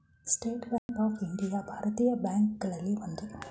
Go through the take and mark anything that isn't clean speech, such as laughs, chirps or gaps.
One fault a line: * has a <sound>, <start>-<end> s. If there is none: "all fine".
* has a dropout, 0.8-0.9 s